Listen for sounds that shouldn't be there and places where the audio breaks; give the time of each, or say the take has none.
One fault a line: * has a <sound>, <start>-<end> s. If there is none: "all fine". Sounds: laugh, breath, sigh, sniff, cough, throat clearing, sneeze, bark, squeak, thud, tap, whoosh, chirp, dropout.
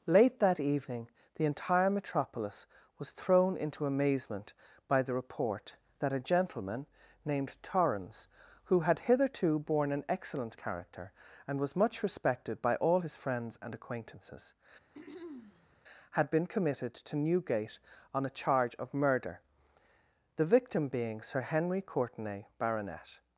* has a throat clearing, 14.9-15.8 s